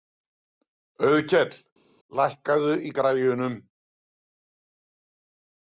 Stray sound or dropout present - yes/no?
no